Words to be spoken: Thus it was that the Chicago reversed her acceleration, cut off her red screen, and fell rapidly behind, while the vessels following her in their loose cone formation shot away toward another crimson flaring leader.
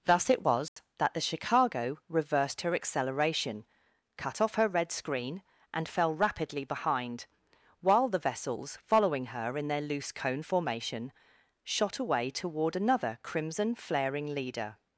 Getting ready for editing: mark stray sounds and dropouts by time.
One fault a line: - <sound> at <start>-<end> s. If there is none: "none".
- dropout at 0.7-0.8 s